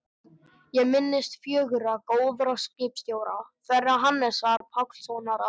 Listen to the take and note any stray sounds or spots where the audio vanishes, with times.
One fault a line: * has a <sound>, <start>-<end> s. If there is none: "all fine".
* has a dropout, 4.6-4.6 s